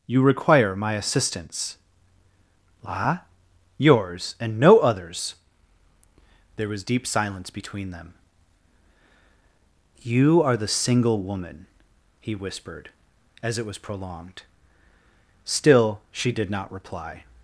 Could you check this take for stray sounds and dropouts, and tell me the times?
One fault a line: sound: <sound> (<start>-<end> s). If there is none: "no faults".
no faults